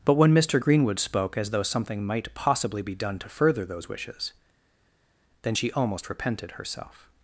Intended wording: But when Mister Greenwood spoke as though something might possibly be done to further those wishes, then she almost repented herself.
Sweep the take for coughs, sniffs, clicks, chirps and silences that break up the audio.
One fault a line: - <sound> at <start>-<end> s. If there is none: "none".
none